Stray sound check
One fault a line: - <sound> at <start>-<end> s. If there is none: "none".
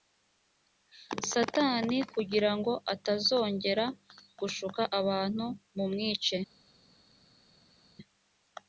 none